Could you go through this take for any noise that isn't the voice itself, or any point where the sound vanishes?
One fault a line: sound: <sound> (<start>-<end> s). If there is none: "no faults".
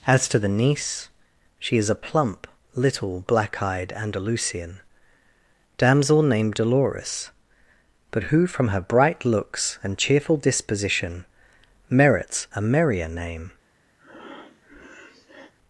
sound: breath (14.0-15.5 s)